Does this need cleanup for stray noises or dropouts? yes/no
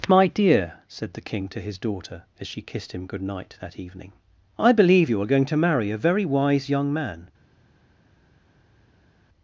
no